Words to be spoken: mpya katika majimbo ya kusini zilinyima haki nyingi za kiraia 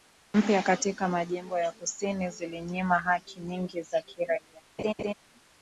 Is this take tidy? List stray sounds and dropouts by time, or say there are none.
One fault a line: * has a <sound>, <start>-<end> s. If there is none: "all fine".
* has a laugh, 4.8-5.1 s